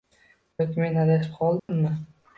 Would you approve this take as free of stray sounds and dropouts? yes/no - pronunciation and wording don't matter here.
no